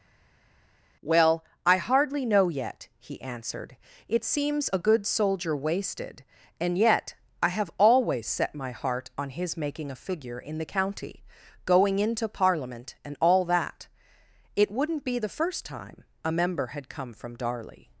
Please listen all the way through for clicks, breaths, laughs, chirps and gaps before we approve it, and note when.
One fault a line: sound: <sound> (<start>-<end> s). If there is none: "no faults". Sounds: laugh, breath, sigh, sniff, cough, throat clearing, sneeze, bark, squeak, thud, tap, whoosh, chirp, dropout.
no faults